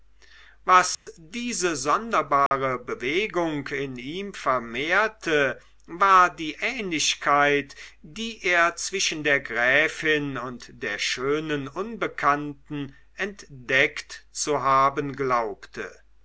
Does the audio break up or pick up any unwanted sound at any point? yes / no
yes